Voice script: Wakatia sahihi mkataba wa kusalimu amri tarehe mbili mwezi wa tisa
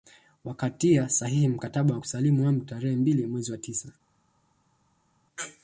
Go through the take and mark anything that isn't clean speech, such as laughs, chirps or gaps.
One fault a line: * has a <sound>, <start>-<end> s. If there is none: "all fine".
all fine